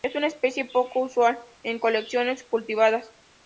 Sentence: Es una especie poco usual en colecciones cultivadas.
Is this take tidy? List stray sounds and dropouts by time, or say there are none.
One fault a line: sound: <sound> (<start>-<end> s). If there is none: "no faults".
no faults